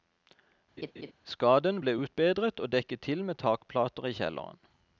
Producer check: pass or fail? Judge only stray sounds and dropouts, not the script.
fail